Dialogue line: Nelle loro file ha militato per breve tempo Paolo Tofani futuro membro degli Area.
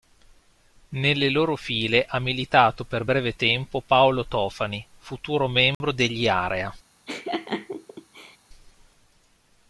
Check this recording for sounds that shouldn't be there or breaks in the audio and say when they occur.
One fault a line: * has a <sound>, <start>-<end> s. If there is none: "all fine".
* has a dropout, 5.7-5.8 s
* has a laugh, 7.1-8.4 s